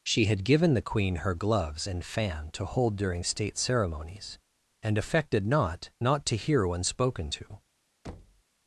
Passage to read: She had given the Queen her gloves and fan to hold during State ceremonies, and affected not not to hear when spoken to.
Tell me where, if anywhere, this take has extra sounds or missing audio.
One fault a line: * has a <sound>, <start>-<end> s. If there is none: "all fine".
* has a thud, 8.0-8.4 s